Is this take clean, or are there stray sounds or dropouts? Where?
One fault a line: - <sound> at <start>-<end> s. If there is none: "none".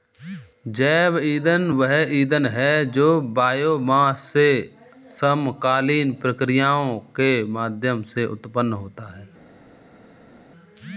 none